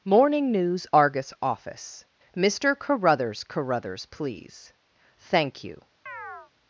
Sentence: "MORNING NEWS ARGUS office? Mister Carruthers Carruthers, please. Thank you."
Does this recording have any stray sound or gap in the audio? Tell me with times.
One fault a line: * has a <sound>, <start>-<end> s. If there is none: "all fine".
* has a chirp, 6.1-6.5 s